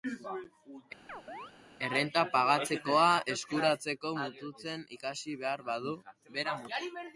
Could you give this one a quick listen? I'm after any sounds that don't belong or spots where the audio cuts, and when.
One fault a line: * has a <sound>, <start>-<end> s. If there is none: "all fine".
* has a chirp, 1.1-1.5 s